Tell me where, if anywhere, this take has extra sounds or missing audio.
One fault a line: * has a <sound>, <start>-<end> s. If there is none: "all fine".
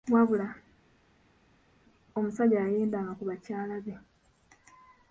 all fine